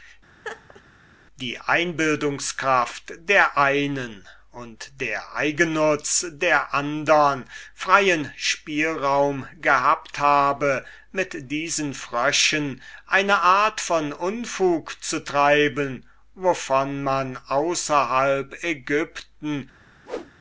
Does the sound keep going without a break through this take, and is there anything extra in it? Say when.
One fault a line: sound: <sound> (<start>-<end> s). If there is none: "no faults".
sound: laugh (0.4-0.8 s)
sound: whoosh (20.0-20.3 s)